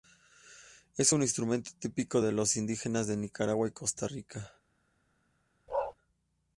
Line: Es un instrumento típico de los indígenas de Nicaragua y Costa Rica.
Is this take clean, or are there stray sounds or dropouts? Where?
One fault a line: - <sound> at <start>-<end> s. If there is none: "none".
- bark at 5.7-5.9 s